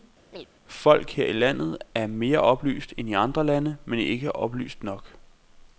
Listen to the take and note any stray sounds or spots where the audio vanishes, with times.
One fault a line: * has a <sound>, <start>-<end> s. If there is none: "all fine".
* has a chirp, 0.3-0.5 s